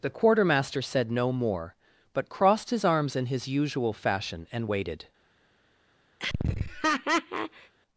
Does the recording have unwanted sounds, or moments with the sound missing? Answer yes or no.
yes